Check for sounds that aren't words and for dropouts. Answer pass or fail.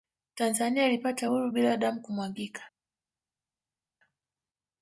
pass